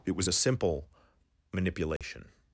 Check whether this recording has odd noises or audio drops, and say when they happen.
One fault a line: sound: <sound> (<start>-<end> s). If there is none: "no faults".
sound: dropout (2.0-2.0 s)